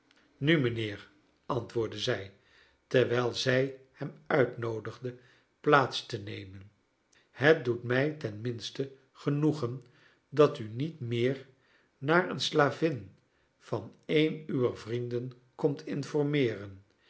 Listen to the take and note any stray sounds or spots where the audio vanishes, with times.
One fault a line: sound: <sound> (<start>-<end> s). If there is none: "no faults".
no faults